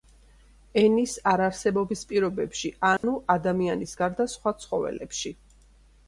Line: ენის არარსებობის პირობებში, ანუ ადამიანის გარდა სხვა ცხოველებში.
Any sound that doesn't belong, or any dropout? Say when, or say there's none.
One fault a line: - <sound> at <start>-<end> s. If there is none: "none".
- dropout at 3.0-3.0 s